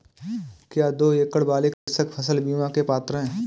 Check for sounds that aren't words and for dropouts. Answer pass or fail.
fail